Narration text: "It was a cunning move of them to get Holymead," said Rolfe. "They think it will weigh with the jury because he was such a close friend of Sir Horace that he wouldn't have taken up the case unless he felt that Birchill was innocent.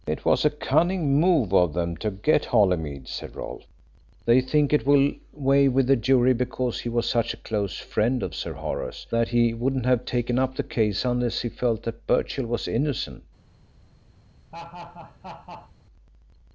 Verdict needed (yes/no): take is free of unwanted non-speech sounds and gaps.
no